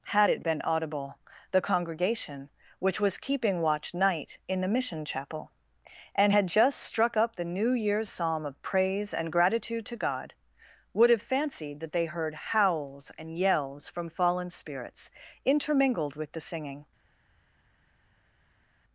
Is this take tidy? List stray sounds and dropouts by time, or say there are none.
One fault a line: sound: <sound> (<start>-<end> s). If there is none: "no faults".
no faults